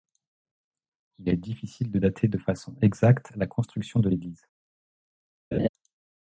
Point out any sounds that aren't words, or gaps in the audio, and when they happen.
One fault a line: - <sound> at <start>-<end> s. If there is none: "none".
- laugh at 5.5-5.7 s